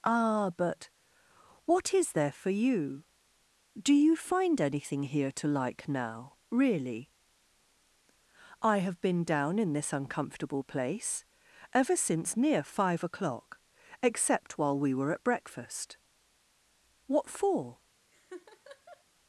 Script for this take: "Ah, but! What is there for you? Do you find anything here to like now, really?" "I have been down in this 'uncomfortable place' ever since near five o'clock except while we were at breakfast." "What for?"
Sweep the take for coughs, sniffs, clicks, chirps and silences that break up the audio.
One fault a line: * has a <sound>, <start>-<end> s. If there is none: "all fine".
* has a laugh, 18.1-19.0 s